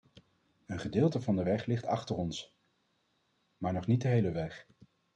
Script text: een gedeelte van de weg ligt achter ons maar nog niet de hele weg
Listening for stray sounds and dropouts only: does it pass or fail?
pass